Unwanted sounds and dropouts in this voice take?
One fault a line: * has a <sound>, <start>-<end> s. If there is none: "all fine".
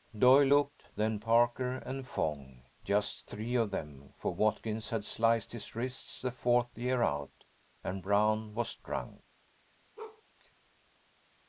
* has a bark, 10.0-10.2 s